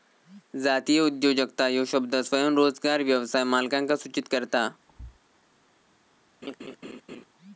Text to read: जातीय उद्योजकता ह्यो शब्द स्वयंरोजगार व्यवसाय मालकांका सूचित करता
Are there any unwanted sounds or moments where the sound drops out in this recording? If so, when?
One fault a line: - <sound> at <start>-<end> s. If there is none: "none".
- thud at 4.9-5.2 s
- laugh at 6.4-7.3 s